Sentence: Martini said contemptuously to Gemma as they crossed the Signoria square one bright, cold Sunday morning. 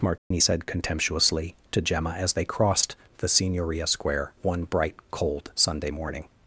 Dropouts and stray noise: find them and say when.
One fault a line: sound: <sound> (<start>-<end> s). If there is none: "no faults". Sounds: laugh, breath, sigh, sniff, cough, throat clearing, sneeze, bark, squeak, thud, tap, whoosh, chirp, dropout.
sound: dropout (0.2-0.3 s)